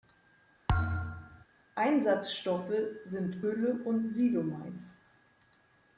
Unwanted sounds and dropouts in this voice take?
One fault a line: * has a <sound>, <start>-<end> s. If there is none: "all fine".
* has a thud, 0.7-1.4 s